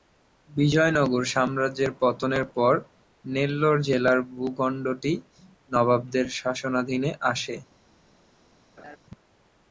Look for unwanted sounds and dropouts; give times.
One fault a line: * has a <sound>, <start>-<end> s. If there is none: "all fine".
* has a laugh, 8.8-9.0 s